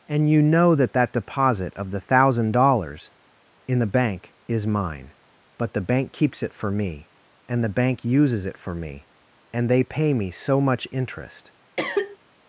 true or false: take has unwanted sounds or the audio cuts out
true